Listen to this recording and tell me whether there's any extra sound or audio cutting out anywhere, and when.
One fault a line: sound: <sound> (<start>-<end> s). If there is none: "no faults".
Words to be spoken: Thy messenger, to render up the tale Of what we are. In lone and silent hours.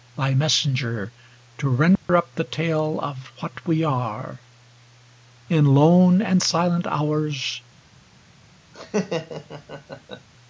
sound: dropout (2.0-2.1 s)
sound: laugh (8.7-10.3 s)